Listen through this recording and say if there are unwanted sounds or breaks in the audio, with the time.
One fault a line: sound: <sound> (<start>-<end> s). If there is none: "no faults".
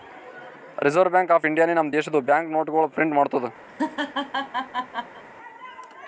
sound: laugh (3.7-5.2 s)